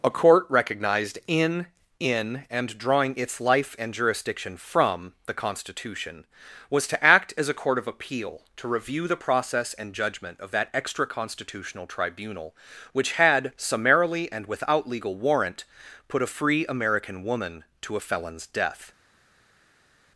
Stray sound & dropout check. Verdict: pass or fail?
pass